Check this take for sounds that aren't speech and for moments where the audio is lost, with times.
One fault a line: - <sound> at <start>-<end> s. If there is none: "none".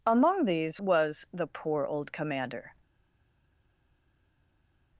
none